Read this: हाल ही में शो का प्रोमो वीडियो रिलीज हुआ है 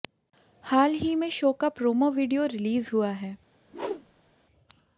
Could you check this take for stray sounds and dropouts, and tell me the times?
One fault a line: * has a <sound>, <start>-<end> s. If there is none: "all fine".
* has a whoosh, 3.6-4.4 s